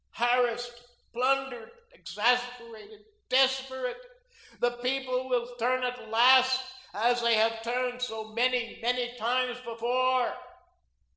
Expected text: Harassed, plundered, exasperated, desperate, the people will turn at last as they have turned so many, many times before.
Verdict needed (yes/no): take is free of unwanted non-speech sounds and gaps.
yes